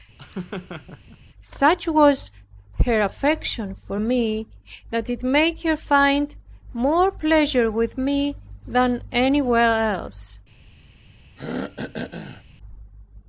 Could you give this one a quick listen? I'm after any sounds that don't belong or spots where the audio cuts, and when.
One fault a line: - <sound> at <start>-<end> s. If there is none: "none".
- laugh at 0.2-1.2 s
- throat clearing at 11.4-12.4 s